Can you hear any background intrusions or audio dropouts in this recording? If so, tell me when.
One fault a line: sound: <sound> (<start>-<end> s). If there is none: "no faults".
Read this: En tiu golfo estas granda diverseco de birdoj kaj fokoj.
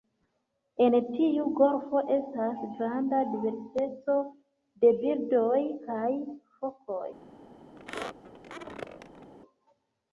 sound: squeak (7.8-9.3 s)